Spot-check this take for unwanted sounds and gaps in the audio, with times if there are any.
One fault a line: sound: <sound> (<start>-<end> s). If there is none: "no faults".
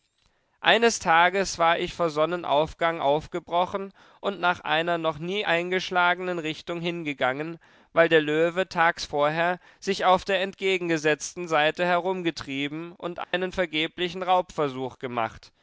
sound: dropout (13.2-13.3 s)